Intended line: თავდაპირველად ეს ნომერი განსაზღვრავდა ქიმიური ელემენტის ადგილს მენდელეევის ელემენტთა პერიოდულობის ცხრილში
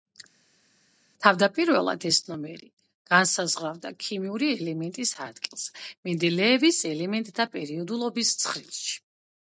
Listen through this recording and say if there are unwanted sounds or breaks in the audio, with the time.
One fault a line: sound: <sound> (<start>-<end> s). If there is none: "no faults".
no faults